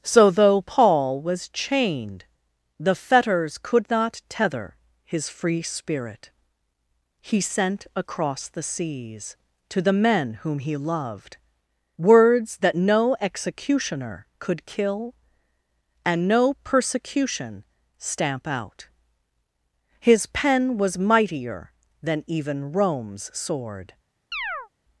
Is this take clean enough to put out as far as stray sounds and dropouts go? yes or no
no